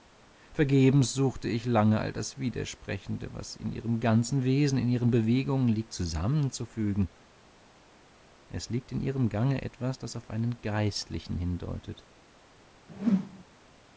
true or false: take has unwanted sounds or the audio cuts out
true